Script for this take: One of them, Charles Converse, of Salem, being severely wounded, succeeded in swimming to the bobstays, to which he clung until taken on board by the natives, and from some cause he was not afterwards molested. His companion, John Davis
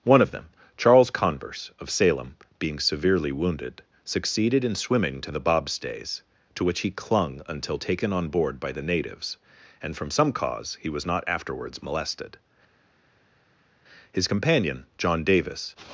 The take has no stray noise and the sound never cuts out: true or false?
true